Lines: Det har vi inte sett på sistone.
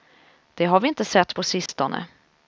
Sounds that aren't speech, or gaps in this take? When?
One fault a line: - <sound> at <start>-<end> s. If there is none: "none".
- dropout at 1.7-1.7 s